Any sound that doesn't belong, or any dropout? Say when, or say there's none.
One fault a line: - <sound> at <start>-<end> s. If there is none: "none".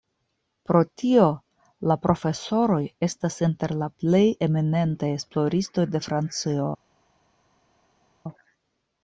none